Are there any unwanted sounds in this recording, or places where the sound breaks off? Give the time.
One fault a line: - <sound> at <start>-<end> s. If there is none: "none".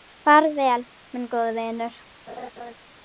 - laugh at 2.3-2.7 s